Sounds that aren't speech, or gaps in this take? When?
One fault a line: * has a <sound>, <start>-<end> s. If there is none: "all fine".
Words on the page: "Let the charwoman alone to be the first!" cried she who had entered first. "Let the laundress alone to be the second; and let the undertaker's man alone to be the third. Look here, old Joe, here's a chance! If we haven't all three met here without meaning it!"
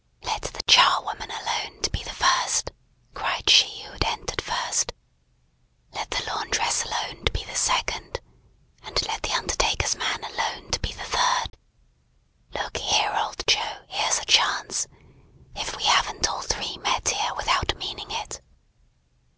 * has a dropout, 11.5-11.5 s